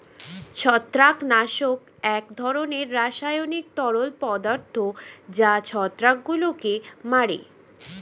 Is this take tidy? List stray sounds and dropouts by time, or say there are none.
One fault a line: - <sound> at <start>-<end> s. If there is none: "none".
none